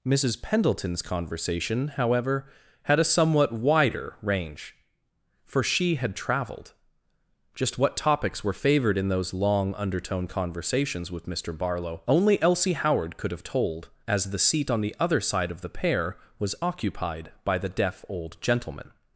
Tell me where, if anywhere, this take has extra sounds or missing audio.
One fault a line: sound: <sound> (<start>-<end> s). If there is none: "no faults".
no faults